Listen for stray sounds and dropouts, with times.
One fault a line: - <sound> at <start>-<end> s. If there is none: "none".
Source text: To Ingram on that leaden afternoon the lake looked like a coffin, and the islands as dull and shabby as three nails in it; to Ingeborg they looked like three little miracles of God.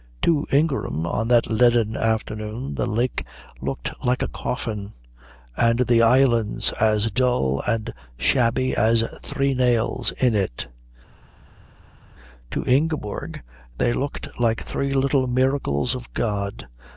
none